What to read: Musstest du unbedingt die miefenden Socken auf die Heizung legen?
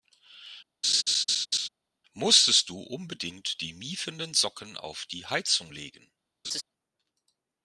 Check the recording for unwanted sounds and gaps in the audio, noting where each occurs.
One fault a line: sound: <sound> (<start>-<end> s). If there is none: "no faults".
sound: laugh (0.8-1.7 s)
sound: laugh (6.4-6.6 s)